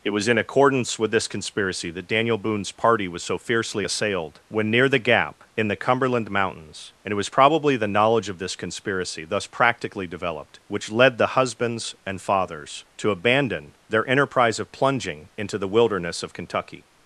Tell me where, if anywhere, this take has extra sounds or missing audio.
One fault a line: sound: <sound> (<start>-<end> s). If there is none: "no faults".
no faults